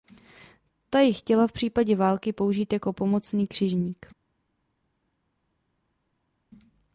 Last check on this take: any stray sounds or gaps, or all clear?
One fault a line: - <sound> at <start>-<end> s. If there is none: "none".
none